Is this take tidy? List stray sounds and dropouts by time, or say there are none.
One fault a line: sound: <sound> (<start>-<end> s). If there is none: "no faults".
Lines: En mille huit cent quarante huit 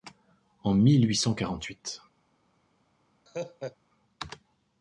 sound: laugh (3.3-3.8 s)